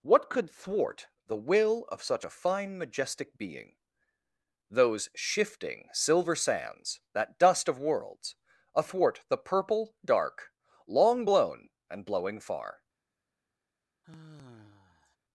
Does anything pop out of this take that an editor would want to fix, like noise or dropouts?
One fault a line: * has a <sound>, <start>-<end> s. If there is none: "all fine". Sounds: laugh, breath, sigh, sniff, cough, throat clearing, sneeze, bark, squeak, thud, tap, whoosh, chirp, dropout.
* has a sigh, 14.0-15.2 s